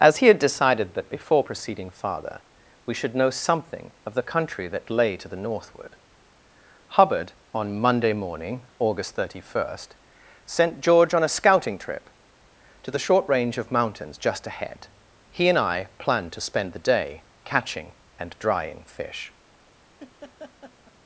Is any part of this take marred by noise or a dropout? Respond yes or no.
yes